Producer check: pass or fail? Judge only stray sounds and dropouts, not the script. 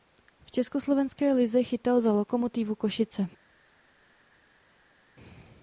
pass